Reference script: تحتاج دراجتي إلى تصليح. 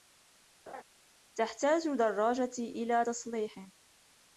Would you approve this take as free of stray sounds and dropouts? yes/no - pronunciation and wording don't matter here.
no